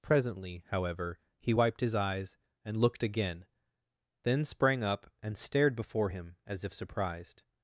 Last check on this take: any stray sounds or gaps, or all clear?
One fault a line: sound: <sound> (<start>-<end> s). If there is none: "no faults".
no faults